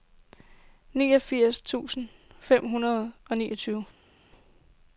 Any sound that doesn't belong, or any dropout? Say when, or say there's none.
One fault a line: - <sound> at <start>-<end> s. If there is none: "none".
none